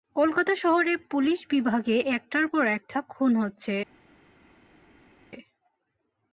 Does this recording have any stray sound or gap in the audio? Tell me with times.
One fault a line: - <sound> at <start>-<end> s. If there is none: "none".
none